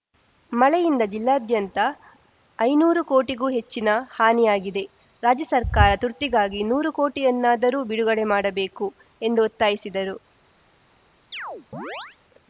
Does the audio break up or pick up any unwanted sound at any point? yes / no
yes